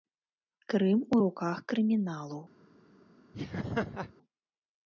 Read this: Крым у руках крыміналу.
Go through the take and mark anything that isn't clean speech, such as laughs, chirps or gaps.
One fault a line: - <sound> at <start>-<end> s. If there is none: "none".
- laugh at 3.3-4.1 s